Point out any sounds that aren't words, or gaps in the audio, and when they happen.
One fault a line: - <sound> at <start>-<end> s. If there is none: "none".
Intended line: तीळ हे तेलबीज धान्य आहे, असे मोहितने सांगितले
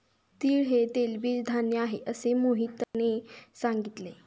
- dropout at 2.8-2.9 s